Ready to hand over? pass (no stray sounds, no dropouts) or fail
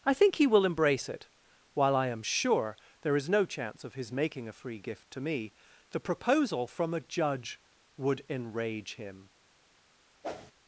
fail